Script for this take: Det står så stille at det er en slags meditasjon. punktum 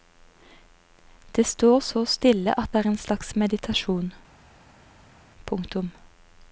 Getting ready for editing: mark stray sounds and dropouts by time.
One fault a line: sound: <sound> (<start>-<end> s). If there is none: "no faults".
no faults